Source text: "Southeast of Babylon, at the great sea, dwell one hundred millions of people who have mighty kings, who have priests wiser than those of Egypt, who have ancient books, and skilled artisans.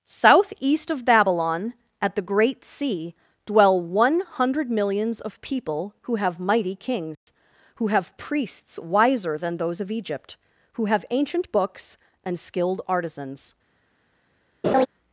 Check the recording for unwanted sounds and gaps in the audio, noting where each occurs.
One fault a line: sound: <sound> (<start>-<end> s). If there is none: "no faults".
sound: dropout (7.1-7.3 s)
sound: laugh (14.6-14.9 s)